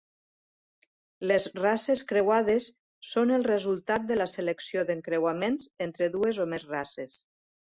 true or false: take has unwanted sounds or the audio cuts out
false